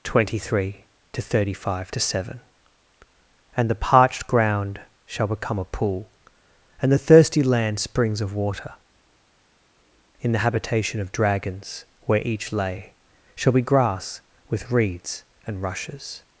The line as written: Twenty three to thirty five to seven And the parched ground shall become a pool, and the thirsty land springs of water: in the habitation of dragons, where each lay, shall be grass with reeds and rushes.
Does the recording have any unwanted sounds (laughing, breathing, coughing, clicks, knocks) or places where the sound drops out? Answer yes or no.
no